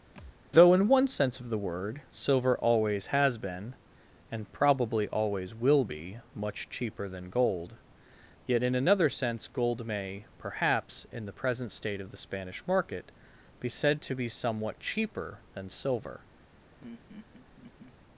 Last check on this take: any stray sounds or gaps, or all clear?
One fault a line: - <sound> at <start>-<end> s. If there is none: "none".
- thud at 0.2-0.4 s
- laugh at 16.8-18.0 s